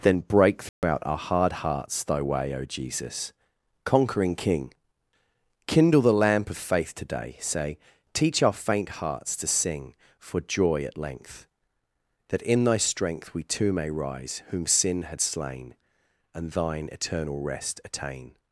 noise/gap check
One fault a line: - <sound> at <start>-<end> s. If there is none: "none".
- dropout at 0.7-0.8 s